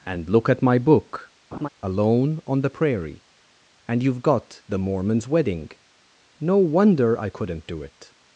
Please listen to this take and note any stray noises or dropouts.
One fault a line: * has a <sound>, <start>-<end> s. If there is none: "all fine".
* has a laugh, 1.5-1.7 s